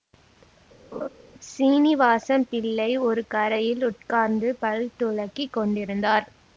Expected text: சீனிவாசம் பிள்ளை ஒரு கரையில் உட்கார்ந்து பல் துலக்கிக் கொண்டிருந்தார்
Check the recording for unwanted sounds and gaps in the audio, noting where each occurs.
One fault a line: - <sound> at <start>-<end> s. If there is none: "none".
- laugh at 0.9-1.1 s